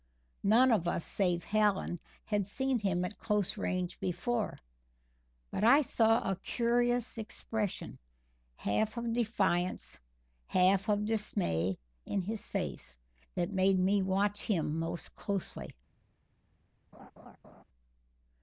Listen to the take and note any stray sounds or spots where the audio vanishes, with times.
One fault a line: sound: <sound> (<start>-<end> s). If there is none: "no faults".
sound: laugh (16.9-17.6 s)